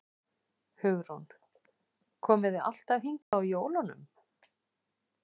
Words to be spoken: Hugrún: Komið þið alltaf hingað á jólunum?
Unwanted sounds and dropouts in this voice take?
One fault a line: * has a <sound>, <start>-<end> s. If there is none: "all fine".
* has a dropout, 3.2-3.3 s